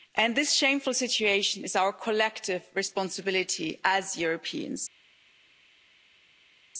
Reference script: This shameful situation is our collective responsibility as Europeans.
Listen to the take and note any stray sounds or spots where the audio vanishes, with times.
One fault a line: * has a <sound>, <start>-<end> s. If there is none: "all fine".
all fine